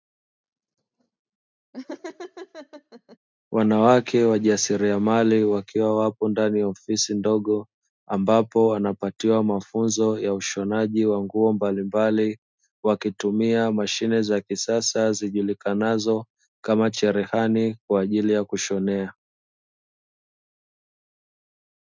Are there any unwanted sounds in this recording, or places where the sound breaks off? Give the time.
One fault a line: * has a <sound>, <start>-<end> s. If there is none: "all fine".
* has a laugh, 1.7-3.2 s